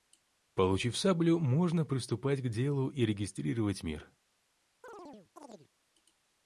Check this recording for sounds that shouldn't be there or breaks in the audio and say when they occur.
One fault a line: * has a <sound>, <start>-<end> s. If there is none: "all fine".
* has a chirp, 4.8-5.7 s